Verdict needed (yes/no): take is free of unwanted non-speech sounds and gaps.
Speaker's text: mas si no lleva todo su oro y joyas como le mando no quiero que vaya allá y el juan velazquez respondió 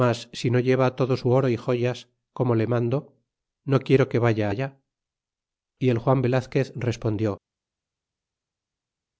yes